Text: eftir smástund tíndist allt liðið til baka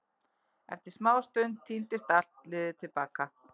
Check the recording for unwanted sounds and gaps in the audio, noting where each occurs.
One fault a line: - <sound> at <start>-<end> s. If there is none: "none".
none